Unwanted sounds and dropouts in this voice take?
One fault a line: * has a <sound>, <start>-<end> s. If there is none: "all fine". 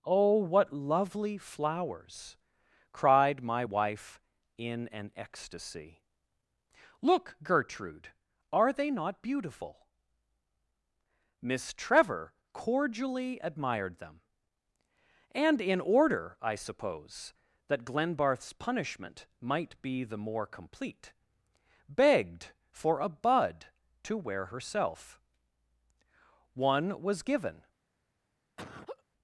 * has a laugh, 28.6-29.0 s